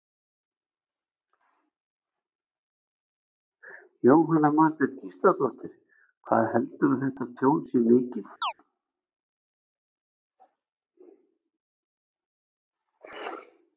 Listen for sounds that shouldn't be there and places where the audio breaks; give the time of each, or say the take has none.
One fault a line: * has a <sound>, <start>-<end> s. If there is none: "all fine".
* has a chirp, 8.4-8.5 s